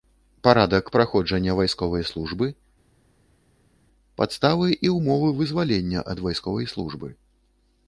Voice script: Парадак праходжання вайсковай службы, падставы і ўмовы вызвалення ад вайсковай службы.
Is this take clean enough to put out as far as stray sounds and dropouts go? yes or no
yes